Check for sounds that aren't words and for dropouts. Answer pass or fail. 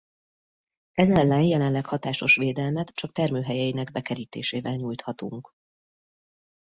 pass